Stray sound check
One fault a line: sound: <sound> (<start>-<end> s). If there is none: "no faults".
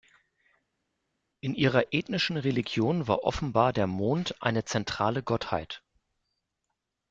no faults